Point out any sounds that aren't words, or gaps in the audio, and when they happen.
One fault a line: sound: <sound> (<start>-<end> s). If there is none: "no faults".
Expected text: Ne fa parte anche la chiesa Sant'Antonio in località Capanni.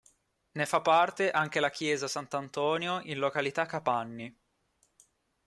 no faults